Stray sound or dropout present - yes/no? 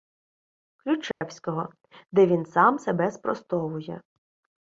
yes